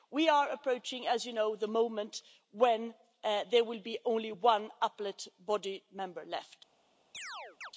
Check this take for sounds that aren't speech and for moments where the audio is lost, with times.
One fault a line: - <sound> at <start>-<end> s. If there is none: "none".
- chirp at 7.1-7.7 s